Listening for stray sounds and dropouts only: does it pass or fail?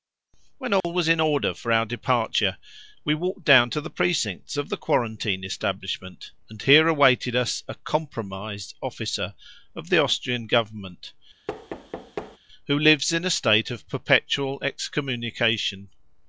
fail